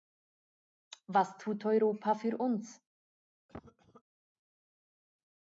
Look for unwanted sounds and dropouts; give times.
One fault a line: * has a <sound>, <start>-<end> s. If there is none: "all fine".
* has a cough, 3.5-4.0 s